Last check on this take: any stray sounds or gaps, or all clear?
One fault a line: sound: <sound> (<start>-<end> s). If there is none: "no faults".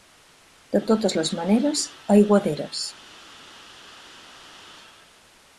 no faults